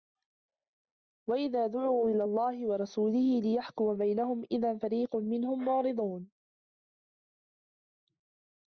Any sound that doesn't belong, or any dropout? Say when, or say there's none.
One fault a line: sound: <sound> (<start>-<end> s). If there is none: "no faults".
no faults